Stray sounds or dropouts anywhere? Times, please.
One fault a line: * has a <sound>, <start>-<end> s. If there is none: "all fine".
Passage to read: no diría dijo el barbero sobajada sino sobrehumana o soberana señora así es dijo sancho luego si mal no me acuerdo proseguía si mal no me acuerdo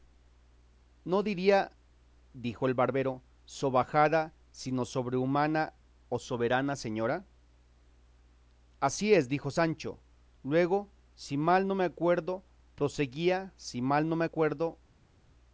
all fine